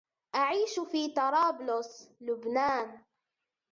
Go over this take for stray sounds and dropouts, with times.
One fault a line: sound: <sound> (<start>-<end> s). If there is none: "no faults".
no faults